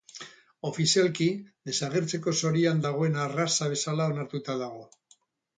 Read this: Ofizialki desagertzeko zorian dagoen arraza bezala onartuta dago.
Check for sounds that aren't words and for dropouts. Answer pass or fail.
pass